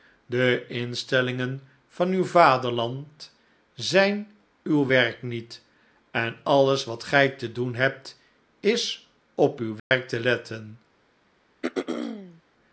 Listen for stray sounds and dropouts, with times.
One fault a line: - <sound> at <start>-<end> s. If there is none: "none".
- dropout at 9.8-9.9 s
- throat clearing at 11.6-12.4 s